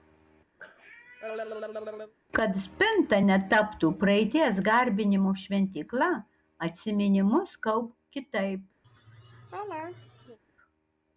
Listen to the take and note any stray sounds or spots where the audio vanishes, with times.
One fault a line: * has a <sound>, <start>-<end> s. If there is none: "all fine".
* has a cough, 0.6-2.1 s
* has a laugh, 8.8-10.4 s